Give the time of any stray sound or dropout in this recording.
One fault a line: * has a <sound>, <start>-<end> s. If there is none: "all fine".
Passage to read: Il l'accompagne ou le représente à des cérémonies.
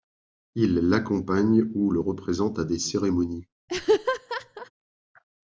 * has a laugh, 3.7-4.7 s